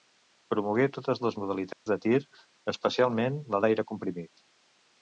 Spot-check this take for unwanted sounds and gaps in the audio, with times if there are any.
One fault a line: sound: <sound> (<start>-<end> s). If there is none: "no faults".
sound: dropout (1.7-1.9 s)